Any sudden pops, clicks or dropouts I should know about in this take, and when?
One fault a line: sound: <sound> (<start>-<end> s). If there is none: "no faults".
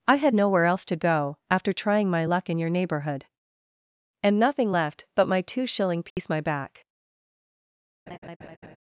sound: dropout (6.1-6.2 s)
sound: laugh (8.1-8.8 s)